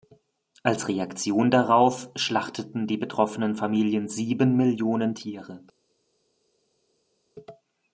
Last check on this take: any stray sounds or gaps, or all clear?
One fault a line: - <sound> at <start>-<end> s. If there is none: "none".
none